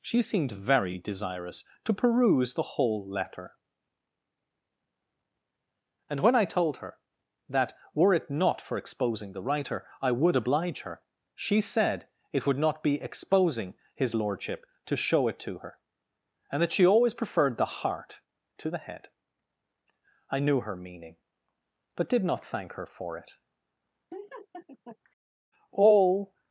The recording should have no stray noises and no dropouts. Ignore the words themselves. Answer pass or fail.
fail